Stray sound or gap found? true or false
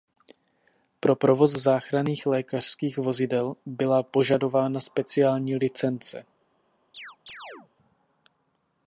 true